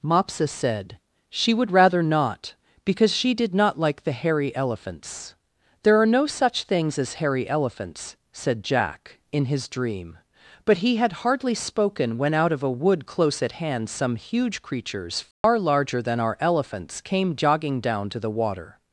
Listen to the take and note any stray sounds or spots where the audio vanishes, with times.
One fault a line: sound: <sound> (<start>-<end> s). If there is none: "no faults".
sound: dropout (15.3-15.4 s)